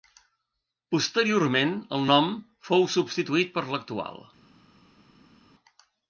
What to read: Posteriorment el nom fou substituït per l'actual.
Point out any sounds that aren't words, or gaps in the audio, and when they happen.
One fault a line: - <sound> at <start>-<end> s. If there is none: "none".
none